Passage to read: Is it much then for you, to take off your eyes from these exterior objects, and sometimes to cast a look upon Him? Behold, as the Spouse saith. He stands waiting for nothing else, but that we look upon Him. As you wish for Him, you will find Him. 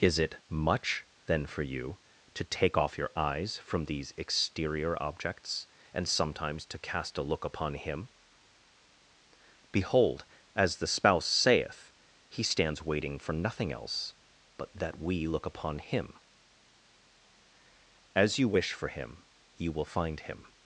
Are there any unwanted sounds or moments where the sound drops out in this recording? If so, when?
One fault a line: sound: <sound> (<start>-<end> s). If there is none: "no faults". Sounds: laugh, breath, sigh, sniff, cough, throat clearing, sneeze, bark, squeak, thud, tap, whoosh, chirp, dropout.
no faults